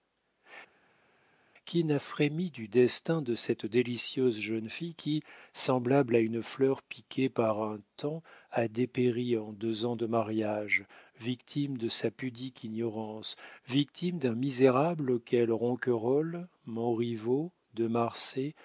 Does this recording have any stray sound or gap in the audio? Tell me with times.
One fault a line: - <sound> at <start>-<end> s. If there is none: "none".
none